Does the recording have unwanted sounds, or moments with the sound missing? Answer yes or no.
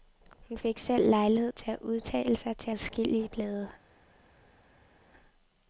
no